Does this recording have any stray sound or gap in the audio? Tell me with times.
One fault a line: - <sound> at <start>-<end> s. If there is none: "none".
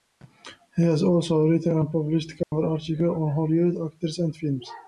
- dropout at 2.4-2.5 s